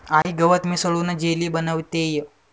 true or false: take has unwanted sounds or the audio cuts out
true